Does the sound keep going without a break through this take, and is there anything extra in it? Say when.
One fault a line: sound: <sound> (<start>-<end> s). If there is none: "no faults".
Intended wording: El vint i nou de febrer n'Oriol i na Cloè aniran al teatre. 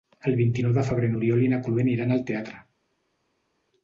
no faults